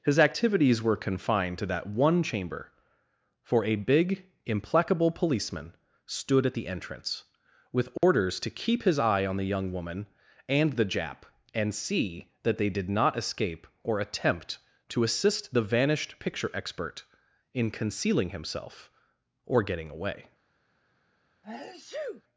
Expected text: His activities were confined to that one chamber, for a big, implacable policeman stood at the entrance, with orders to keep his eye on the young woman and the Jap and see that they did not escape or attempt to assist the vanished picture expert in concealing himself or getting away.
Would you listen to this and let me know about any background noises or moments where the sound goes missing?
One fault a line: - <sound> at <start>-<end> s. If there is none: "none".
- dropout at 8.0-8.0 s
- sneeze at 21.4-22.2 s